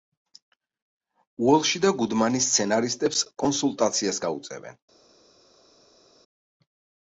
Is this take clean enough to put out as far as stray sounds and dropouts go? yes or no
yes